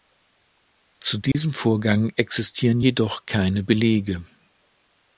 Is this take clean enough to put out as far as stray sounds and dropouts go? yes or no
no